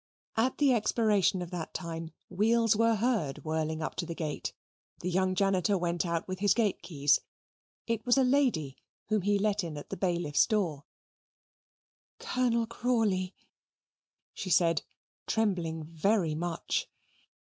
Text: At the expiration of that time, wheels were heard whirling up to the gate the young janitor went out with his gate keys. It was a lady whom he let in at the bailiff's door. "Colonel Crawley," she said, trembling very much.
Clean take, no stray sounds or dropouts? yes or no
yes